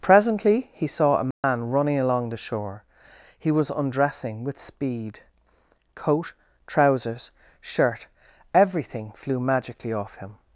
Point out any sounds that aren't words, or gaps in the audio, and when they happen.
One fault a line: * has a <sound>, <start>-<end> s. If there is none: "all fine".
* has a dropout, 1.3-1.4 s